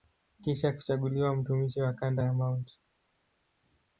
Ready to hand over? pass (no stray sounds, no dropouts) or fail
pass